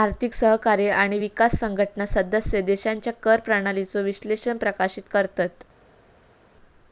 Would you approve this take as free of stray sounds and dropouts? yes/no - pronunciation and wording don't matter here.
yes